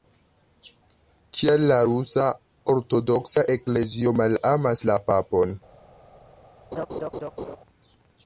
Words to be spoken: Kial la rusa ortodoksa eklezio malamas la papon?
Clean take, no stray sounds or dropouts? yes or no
no